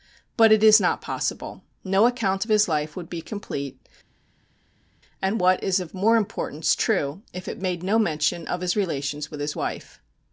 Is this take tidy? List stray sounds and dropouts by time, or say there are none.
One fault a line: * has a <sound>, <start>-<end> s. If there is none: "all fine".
all fine